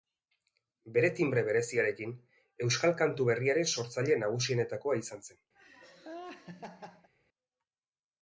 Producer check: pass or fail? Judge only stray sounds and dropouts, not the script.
fail